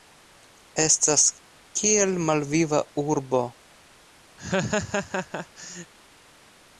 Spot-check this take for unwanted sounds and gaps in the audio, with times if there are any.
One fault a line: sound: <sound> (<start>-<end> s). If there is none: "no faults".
sound: laugh (4.4-5.9 s)